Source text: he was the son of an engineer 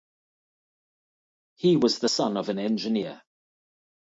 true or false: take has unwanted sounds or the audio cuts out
false